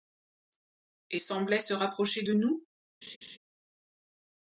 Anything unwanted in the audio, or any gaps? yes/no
yes